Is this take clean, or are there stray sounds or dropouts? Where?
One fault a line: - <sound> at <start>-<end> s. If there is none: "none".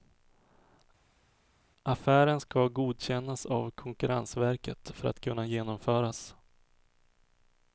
none